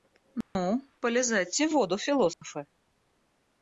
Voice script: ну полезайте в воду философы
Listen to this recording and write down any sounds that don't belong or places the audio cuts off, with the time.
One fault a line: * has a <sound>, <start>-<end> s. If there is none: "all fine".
* has a dropout, 0.4-0.6 s
* has a dropout, 2.3-2.4 s